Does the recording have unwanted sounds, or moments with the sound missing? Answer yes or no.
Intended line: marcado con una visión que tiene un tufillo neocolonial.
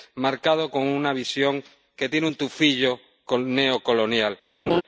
yes